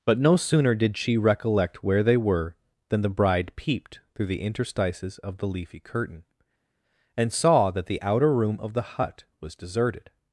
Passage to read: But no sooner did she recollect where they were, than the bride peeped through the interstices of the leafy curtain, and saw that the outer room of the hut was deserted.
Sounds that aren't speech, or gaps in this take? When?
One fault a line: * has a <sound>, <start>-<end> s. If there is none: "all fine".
all fine